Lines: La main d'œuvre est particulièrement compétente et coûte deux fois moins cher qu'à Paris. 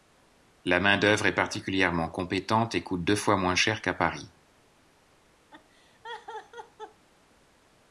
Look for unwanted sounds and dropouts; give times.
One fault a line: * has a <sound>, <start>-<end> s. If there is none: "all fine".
* has a laugh, 5.5-7.1 s